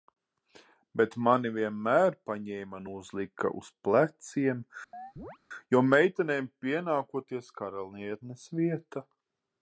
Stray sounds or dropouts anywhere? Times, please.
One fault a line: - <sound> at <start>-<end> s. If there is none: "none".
- chirp at 4.9-5.4 s